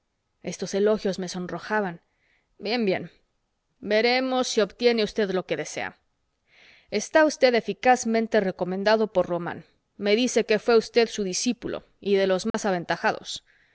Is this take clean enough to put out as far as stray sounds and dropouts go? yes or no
no